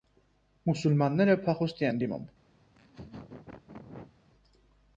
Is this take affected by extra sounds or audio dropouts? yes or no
yes